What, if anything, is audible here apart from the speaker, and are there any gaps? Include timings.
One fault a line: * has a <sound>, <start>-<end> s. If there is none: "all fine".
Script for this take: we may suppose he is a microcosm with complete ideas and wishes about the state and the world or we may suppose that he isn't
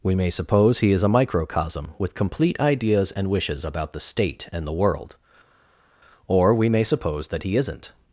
all fine